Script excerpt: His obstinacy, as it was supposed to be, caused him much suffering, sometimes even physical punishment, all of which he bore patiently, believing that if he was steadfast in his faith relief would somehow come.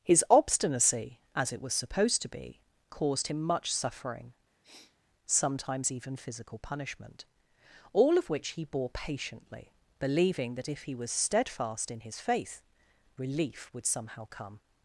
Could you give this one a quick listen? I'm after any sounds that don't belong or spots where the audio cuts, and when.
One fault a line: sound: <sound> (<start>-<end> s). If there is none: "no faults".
sound: sniff (4.6-5.0 s)